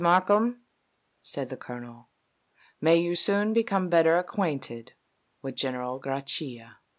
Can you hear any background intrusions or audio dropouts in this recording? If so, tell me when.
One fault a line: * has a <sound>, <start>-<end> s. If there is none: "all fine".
all fine